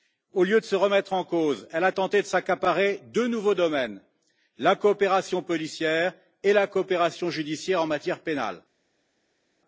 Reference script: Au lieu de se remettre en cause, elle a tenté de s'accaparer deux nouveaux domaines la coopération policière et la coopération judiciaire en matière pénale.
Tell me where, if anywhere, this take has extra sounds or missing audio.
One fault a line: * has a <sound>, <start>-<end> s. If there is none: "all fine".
all fine